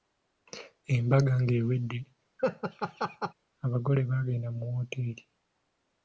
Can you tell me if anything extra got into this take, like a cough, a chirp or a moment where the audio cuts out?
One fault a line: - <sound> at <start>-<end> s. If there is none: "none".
- laugh at 2.4-3.3 s